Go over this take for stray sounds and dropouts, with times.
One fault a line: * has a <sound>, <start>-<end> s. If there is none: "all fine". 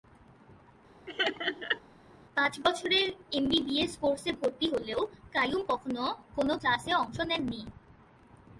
* has a laugh, 1.1-1.8 s